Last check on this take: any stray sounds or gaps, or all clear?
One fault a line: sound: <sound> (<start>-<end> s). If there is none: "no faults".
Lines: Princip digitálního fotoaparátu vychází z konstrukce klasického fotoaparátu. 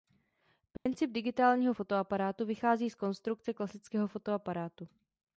sound: dropout (0.8-0.9 s)